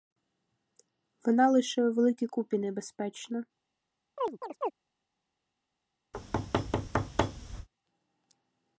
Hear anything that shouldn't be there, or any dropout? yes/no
yes